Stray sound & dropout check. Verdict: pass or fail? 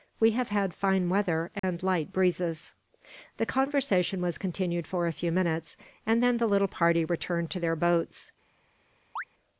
fail